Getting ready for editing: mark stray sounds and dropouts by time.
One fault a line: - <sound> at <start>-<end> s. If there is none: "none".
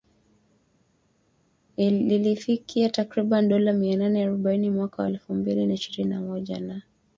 none